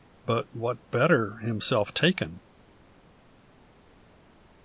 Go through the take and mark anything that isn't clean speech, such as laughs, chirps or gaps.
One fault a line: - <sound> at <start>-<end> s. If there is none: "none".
none